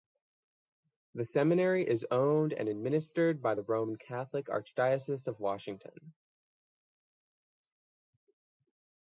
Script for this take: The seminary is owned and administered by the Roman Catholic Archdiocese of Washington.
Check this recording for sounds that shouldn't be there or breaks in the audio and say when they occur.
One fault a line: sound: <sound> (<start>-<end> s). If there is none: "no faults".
no faults